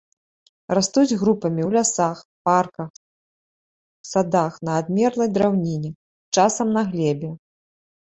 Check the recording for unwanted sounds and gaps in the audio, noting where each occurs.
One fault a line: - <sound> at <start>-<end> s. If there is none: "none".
none